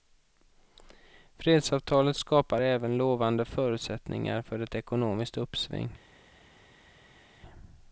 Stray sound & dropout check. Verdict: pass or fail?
pass